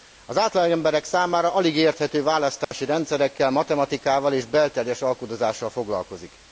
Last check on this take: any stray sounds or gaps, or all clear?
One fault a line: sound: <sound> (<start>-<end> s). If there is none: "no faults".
sound: dropout (2.6-2.7 s)